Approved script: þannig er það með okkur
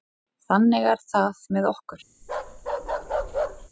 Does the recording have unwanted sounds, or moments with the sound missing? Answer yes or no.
yes